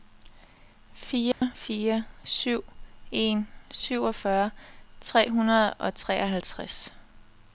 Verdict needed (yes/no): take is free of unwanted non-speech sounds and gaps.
no